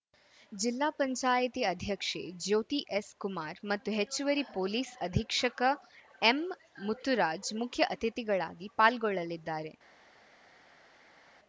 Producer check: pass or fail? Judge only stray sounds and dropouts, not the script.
pass